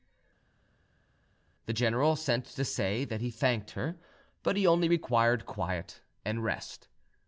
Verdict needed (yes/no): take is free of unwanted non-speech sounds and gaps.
yes